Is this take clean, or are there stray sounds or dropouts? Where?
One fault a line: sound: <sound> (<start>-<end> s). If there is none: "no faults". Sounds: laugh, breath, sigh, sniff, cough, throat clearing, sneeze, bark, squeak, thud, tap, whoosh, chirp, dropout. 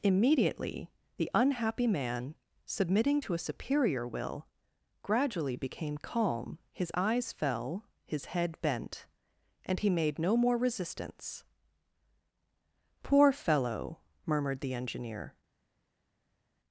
no faults